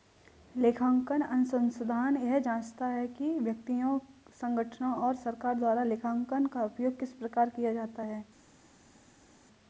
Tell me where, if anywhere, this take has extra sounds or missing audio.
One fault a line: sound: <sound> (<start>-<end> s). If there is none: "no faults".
no faults